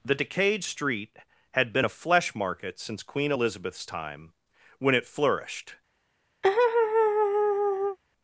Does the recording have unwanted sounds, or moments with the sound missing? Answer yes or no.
yes